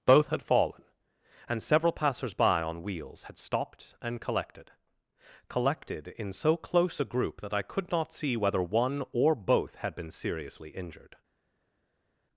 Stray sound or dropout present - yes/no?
no